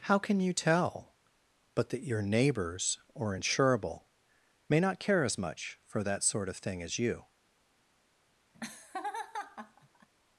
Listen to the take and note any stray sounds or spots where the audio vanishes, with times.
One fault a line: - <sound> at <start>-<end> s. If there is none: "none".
- laugh at 8.5-10.1 s